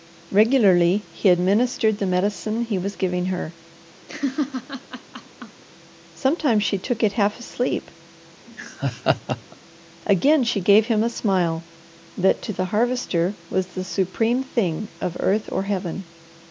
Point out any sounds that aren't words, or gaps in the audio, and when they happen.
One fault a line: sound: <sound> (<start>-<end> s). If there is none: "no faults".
sound: laugh (4.1-5.6 s)
sound: laugh (8.5-9.6 s)